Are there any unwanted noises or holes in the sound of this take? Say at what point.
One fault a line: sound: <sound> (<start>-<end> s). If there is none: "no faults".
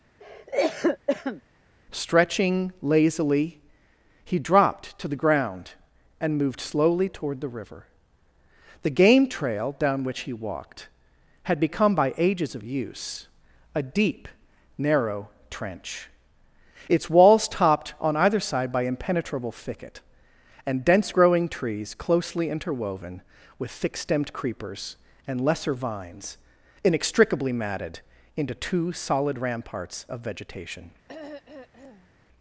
sound: cough (0.2-1.4 s)
sound: throat clearing (31.1-32.1 s)